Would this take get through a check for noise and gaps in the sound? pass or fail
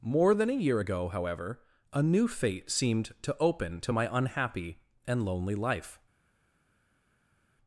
pass